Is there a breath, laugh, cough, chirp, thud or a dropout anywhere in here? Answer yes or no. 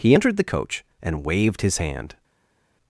no